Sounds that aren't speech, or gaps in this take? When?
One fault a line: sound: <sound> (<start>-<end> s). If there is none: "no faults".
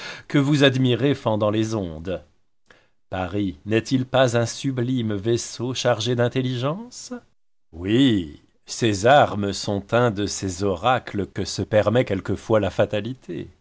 sound: dropout (11.3-11.4 s)